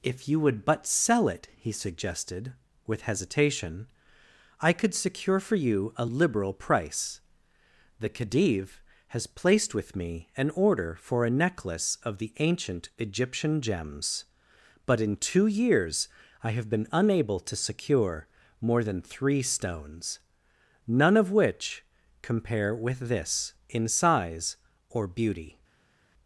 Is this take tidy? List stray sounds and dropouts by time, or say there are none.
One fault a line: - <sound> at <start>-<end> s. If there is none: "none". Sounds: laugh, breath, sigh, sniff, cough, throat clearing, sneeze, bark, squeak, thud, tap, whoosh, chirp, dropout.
none